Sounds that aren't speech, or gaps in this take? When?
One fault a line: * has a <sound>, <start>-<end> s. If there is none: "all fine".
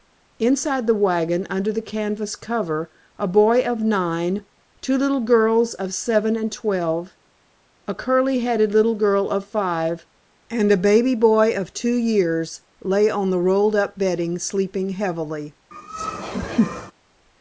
* has a laugh, 15.7-16.9 s